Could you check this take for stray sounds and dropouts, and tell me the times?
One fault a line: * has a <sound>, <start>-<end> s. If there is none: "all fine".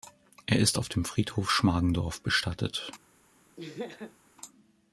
* has a laugh, 3.6-4.2 s